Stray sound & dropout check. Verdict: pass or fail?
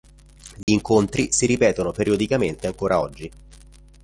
fail